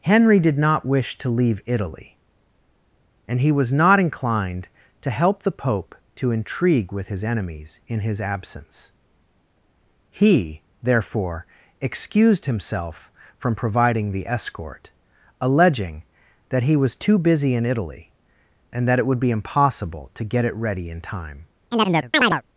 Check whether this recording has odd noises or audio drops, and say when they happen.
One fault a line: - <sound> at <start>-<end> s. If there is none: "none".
- chirp at 21.7-22.4 s